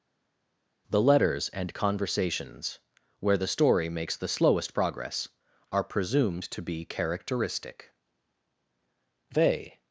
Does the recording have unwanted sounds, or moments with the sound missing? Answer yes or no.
no